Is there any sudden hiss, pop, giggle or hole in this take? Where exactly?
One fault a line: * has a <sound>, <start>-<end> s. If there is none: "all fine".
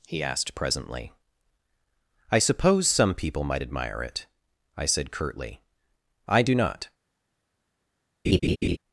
* has a laugh, 8.2-8.8 s